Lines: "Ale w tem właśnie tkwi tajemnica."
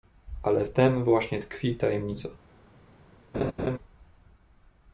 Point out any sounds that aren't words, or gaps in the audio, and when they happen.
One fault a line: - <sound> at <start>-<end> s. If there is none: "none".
- laugh at 3.3-3.8 s